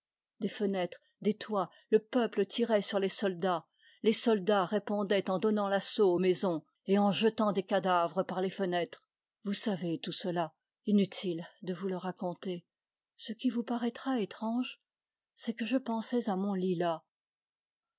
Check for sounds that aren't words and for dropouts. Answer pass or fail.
pass